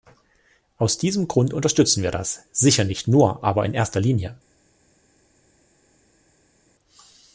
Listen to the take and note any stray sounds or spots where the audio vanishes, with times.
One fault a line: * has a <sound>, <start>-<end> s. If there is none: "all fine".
all fine